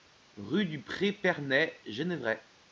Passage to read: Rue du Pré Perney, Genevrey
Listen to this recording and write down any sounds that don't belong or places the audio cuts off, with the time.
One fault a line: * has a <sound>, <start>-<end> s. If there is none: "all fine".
all fine